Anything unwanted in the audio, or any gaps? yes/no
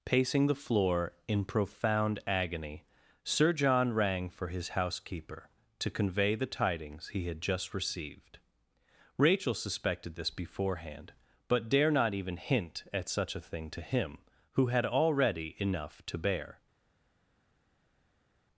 no